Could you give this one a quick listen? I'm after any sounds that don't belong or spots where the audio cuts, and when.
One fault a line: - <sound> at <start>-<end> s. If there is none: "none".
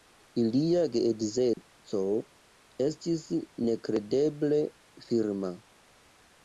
- dropout at 1.5-1.6 s